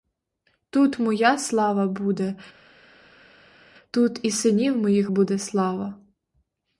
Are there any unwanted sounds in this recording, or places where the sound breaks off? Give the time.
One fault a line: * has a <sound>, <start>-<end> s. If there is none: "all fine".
all fine